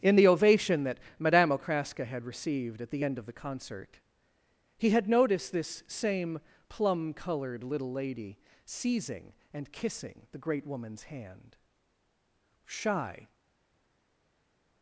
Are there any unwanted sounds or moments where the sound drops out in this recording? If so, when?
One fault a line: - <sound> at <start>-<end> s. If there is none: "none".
none